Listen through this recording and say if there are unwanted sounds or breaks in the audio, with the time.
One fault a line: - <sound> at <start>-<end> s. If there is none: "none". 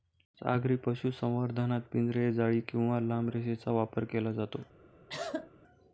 - cough at 5.1-5.5 s